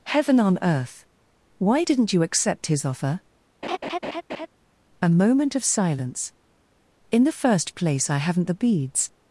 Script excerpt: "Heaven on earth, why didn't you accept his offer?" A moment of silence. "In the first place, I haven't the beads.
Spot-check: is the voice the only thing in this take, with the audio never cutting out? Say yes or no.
no